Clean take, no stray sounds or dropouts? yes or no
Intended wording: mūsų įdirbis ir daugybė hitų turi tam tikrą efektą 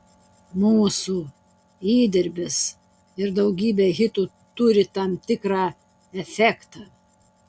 yes